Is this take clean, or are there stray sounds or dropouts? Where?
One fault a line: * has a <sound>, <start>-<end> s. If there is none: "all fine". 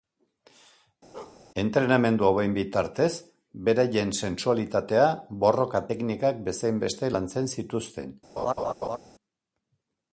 * has a bark, 1.1-1.4 s
* has a laugh, 8.4-9.0 s